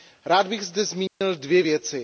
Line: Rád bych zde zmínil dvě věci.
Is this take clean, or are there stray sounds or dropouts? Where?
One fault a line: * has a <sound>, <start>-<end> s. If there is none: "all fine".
* has a dropout, 1.1-1.2 s